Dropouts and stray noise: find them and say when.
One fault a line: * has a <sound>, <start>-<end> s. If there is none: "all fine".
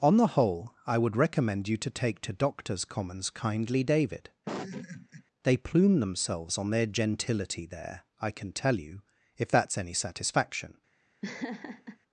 * has a laugh, 4.5-5.2 s
* has a laugh, 11.2-12.0 s